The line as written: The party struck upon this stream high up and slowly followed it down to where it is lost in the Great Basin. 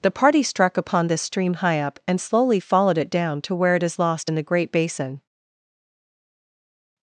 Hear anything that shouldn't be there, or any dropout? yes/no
no